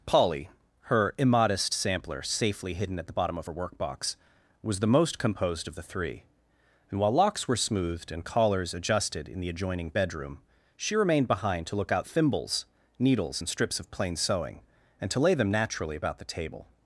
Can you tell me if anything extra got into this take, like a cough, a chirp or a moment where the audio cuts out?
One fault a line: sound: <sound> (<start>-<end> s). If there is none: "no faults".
no faults